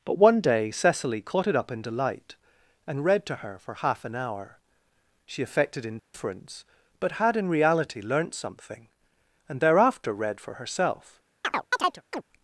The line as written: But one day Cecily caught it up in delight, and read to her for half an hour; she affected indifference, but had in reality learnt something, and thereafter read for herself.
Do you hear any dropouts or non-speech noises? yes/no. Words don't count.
yes